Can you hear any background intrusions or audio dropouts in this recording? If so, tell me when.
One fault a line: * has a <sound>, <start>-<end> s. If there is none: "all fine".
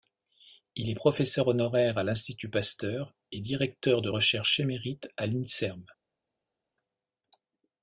all fine